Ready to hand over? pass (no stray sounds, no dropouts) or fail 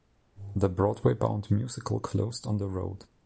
pass